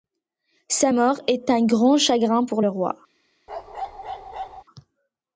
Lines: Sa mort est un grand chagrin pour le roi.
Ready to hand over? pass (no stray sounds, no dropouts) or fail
fail